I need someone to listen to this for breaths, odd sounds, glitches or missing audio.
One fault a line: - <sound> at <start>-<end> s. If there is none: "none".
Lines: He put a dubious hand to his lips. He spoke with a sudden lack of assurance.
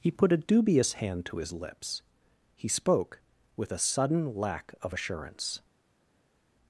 none